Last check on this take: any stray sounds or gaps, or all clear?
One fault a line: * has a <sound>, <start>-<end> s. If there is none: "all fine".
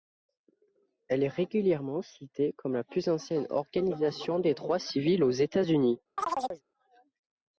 * has a chirp, 6.2-6.6 s